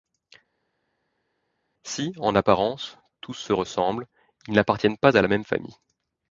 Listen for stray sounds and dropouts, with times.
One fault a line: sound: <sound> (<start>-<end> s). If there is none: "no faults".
no faults